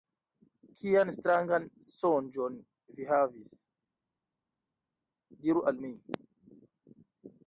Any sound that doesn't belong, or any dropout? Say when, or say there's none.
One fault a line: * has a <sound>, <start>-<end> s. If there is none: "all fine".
all fine